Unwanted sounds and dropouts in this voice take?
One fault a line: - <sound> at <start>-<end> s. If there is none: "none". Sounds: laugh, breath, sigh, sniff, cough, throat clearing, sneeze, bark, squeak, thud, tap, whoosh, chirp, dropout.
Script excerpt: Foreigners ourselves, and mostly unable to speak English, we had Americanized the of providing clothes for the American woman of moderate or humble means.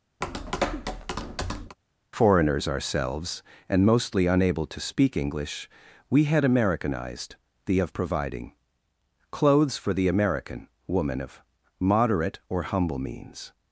- tap at 0.2-1.8 s